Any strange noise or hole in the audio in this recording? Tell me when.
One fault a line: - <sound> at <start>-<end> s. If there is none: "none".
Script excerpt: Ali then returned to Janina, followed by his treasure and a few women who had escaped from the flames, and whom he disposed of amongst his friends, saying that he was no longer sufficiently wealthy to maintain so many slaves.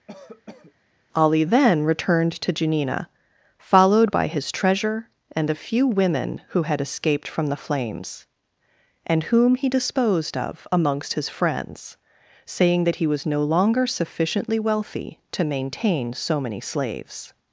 - cough at 0.1-0.7 s